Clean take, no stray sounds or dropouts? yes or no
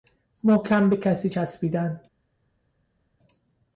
yes